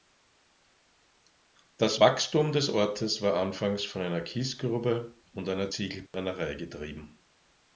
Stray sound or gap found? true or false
true